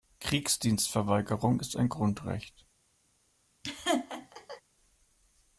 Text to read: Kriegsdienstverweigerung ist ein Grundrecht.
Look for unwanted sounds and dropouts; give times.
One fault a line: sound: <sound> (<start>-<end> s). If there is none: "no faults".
sound: laugh (3.6-4.6 s)